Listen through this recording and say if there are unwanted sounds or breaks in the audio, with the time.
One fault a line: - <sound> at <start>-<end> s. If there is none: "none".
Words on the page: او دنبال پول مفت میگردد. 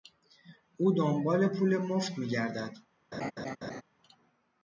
- laugh at 3.1-3.8 s